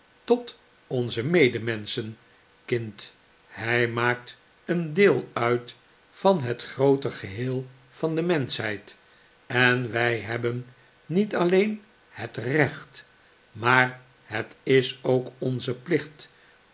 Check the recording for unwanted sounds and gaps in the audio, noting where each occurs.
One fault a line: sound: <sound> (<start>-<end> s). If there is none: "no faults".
no faults